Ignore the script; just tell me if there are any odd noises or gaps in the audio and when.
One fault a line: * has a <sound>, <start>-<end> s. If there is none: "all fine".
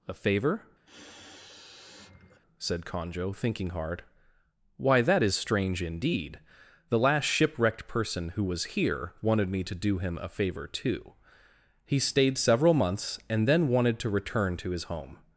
* has a sniff, 0.9-2.4 s